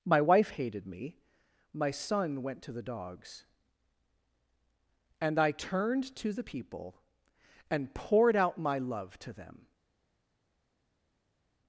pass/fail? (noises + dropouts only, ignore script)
pass